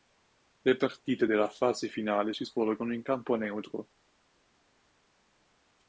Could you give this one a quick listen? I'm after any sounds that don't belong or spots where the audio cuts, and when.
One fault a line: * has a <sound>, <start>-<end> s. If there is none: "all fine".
all fine